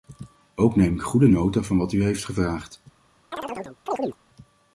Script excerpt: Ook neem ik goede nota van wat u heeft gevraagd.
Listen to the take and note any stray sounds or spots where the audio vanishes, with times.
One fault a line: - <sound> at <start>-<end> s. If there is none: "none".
- chirp at 3.3-4.2 s